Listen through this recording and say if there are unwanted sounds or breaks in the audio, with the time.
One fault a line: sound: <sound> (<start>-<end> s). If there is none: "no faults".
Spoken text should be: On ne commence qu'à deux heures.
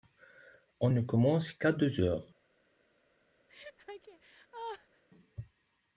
sound: laugh (3.5-5.0 s)